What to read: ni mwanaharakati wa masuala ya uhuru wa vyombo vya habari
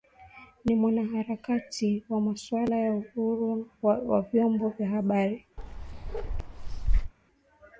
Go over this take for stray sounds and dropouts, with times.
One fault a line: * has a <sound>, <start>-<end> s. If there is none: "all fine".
* has a bark, 5.6-7.1 s